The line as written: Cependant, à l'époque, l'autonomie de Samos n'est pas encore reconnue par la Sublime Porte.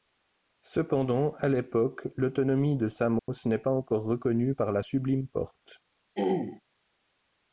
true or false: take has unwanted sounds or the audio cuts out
true